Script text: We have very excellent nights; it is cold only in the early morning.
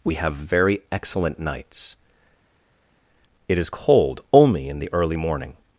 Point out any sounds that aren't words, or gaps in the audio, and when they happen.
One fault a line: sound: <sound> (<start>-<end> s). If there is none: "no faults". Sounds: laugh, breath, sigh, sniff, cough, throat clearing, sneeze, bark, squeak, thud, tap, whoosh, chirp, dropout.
no faults